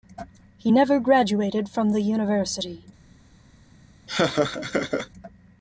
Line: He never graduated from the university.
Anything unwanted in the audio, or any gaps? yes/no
yes